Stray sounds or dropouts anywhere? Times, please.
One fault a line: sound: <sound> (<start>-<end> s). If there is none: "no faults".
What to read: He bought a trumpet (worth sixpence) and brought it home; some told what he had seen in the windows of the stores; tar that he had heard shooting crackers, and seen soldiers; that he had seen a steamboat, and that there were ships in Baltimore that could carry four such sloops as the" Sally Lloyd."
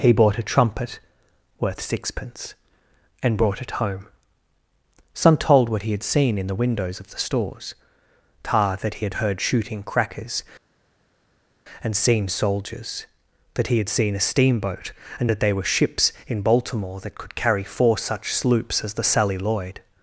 no faults